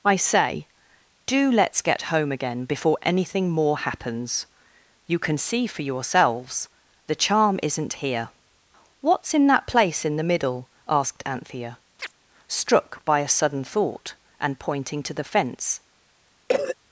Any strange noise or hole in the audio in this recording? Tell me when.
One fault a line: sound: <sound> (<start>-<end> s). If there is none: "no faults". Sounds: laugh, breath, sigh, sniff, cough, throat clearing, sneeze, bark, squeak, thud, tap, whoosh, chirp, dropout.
sound: chirp (12.0-12.1 s)
sound: cough (16.5-16.8 s)